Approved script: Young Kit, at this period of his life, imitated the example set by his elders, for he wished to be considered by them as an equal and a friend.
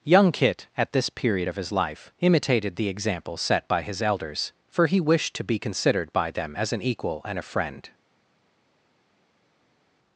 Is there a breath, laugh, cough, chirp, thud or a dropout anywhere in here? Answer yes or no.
no